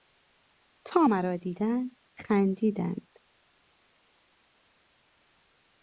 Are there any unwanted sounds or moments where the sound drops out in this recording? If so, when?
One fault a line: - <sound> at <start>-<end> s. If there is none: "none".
none